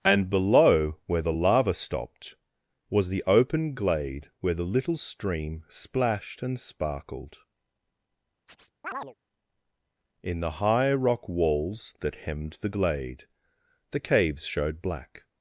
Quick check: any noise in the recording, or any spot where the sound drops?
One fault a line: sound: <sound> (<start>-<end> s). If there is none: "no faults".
sound: chirp (8.5-9.1 s)